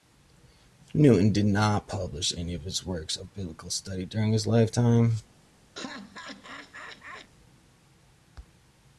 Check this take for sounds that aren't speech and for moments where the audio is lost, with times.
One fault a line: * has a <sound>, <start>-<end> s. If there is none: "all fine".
* has a laugh, 5.7-7.3 s